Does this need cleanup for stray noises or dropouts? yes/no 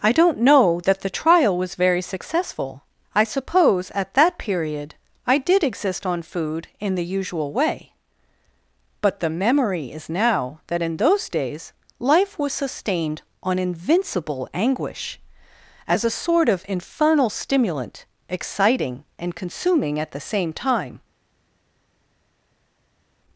no